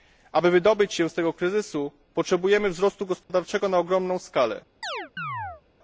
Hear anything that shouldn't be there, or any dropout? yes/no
yes